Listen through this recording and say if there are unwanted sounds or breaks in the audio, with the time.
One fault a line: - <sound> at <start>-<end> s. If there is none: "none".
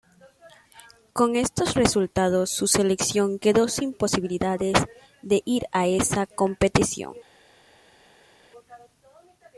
none